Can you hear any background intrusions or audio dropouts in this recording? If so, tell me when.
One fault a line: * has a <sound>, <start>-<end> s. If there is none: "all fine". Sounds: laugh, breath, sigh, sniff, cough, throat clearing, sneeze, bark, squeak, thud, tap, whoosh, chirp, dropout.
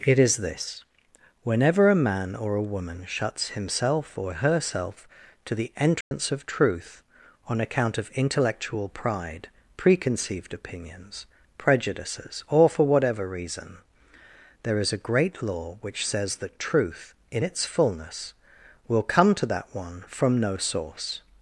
* has a dropout, 6.0-6.1 s